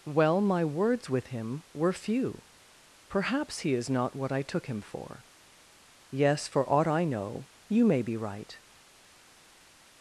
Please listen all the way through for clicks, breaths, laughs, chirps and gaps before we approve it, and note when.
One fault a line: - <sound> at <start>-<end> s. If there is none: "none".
none